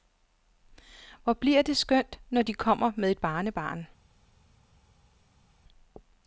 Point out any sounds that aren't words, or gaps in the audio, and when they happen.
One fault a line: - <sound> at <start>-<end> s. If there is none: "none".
none